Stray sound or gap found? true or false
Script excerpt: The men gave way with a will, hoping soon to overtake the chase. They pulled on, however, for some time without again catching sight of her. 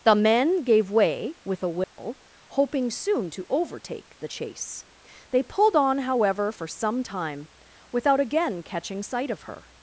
true